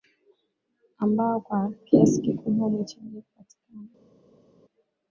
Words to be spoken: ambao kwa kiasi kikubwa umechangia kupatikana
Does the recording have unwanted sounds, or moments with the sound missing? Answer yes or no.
no